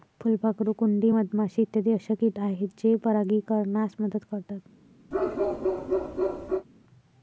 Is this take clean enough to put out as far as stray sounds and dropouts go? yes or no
no